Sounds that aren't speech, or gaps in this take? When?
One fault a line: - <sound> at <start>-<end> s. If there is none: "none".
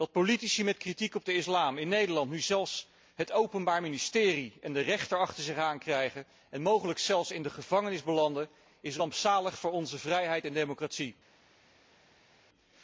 none